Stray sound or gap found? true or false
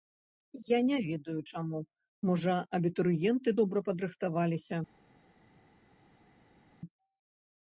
false